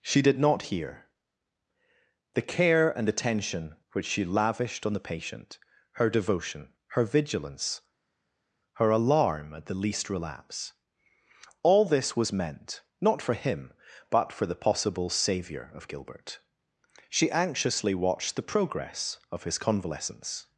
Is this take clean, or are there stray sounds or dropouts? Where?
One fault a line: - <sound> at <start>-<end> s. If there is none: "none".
none